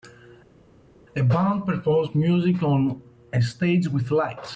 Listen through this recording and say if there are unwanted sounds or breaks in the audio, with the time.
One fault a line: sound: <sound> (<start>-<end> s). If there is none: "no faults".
no faults